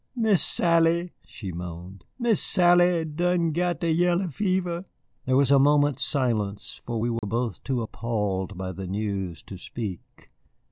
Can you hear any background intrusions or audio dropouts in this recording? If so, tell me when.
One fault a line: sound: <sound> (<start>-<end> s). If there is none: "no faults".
sound: dropout (7.2-7.2 s)